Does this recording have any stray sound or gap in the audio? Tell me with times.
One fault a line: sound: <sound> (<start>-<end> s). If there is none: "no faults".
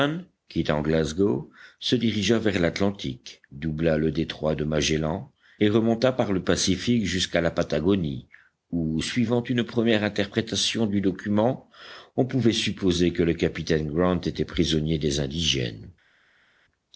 no faults